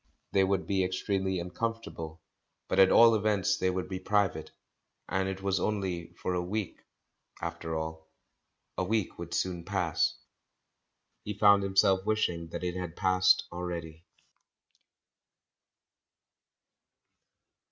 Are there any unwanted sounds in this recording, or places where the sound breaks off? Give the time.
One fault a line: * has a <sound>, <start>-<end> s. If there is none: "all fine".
all fine